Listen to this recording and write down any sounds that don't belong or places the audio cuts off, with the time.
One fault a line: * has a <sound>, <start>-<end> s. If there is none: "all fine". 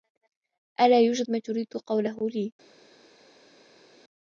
all fine